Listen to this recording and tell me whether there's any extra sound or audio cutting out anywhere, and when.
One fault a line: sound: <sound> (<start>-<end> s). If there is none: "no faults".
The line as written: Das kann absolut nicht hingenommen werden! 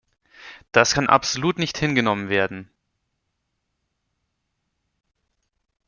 no faults